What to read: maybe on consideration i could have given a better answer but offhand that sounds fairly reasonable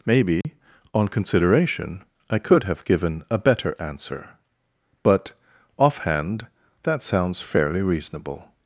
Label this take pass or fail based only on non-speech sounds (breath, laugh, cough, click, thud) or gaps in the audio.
fail